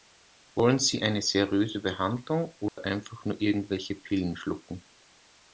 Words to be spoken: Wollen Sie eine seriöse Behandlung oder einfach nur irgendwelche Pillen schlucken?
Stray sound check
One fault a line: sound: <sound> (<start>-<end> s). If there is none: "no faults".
sound: dropout (2.7-2.8 s)